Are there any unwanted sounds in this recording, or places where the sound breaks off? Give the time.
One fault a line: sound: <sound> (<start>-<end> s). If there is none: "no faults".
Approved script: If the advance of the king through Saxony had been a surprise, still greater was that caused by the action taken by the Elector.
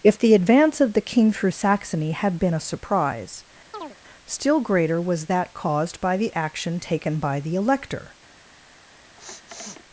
sound: chirp (3.7-4.0 s)
sound: sniff (9.2-9.8 s)